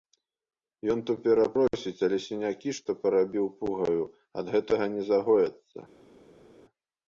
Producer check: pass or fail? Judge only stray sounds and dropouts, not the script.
pass